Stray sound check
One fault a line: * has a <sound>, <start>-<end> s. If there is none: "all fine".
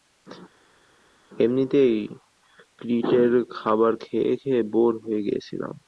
all fine